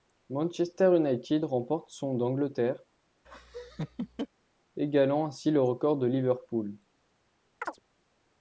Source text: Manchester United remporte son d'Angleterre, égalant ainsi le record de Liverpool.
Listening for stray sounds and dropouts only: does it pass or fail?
fail